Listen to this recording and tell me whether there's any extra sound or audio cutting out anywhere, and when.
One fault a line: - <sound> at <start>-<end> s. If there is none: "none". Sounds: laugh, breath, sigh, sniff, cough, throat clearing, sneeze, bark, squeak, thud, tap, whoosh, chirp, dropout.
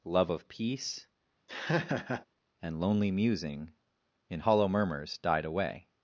- laugh at 1.5-2.3 s